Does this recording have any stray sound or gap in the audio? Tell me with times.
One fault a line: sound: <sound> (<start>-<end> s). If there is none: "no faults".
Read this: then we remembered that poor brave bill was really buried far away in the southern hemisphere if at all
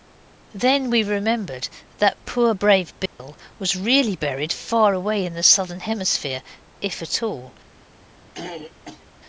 sound: dropout (3.1-3.2 s)
sound: throat clearing (8.3-9.1 s)